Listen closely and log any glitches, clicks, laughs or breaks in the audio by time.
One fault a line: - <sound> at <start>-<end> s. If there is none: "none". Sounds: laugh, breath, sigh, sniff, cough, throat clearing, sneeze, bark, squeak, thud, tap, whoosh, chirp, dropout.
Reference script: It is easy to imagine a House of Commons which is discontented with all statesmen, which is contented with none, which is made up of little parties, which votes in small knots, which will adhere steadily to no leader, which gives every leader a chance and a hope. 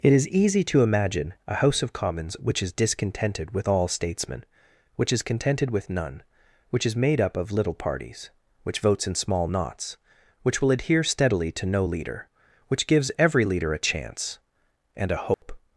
- dropout at 15.3-15.4 s